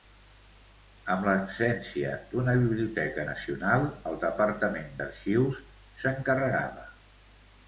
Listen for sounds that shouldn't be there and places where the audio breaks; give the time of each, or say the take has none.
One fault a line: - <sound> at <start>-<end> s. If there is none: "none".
none